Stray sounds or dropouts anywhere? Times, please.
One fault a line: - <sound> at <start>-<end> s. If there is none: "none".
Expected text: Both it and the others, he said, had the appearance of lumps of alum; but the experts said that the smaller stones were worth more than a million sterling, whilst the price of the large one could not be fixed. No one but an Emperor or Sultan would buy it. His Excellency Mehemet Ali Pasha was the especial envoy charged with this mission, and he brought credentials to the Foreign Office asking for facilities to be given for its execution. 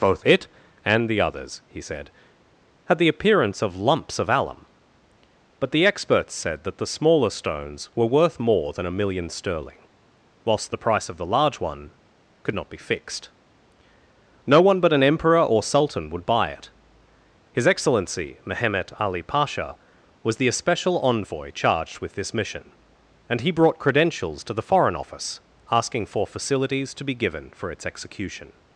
none